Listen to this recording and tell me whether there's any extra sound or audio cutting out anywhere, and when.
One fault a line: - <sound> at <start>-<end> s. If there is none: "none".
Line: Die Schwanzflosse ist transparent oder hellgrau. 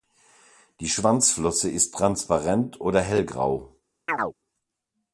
- chirp at 4.1-4.3 s